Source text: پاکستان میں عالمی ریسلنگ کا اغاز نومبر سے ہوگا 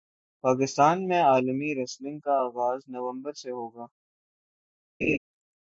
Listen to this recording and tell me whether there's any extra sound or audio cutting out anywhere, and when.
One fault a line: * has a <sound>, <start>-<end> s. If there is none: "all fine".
* has a laugh, 5.0-5.2 s